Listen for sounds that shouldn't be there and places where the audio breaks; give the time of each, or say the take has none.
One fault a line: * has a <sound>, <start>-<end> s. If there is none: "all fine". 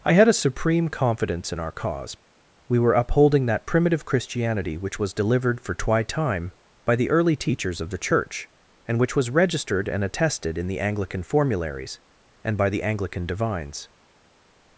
all fine